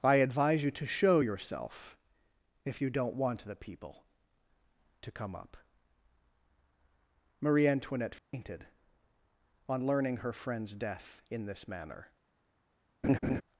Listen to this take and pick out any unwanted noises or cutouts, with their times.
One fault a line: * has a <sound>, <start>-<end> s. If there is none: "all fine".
* has a dropout, 8.2-8.3 s
* has a laugh, 13.0-13.4 s